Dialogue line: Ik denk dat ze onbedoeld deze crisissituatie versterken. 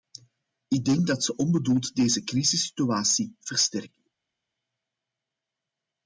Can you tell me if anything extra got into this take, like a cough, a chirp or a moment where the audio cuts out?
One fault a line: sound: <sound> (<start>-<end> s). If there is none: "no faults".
no faults